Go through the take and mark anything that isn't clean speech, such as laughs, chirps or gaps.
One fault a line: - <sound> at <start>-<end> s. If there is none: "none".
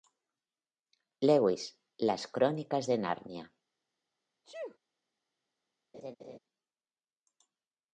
- sneeze at 4.4-4.8 s
- laugh at 5.9-6.4 s